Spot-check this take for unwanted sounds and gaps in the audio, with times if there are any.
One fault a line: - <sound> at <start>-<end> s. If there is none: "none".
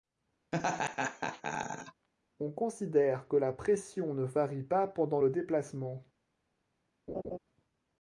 - laugh at 0.5-2.1 s
- laugh at 7.1-7.4 s